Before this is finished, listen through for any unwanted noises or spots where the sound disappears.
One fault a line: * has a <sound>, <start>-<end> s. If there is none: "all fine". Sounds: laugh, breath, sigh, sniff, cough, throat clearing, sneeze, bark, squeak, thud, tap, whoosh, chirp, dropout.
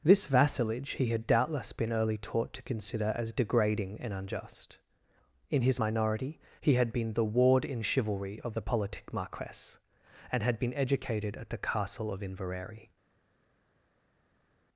all fine